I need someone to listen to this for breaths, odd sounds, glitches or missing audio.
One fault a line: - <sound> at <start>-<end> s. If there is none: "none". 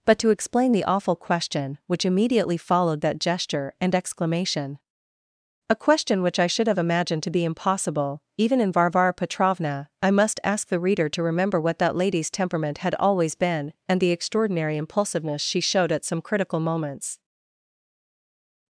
none